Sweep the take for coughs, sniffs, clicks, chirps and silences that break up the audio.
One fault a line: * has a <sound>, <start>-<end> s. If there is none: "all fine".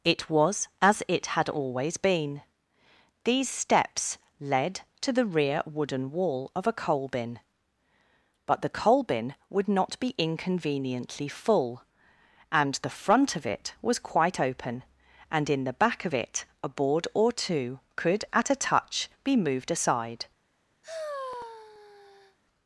* has a sigh, 20.8-22.4 s